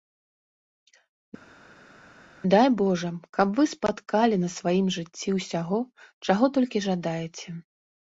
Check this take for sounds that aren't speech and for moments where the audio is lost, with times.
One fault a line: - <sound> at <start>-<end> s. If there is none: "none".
none